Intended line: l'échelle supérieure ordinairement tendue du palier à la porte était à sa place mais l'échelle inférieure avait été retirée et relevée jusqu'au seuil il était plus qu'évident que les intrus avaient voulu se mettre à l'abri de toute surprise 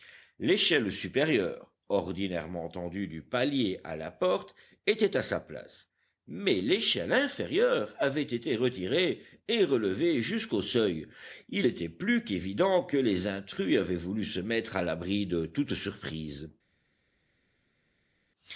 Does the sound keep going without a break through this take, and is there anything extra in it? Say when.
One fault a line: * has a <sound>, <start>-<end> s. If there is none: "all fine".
all fine